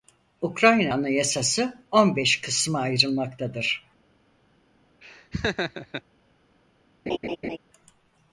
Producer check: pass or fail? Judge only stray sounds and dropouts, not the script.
fail